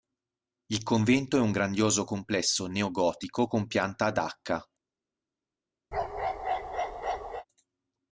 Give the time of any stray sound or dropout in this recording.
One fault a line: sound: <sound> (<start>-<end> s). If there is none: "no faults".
sound: bark (5.9-7.5 s)